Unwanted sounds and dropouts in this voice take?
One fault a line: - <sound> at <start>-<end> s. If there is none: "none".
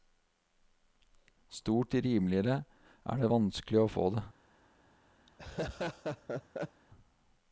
- laugh at 5.3-6.8 s